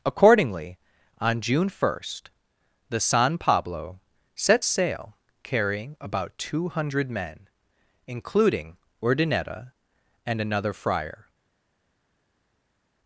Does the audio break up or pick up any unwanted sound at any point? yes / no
no